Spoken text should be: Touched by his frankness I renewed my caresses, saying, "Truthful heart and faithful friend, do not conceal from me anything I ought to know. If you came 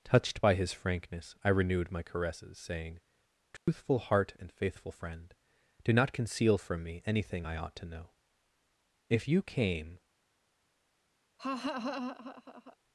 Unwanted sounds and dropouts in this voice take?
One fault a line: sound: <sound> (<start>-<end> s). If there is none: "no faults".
sound: dropout (3.6-3.7 s)
sound: laugh (11.4-12.8 s)